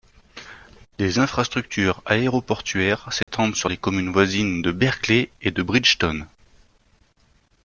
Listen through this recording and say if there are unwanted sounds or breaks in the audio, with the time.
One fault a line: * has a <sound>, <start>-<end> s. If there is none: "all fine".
* has a dropout, 3.2-3.3 s